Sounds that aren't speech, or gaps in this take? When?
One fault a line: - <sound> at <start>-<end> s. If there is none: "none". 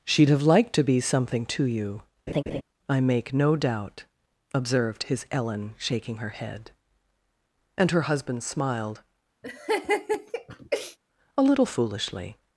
- laugh at 2.3-2.6 s
- laugh at 9.4-11.0 s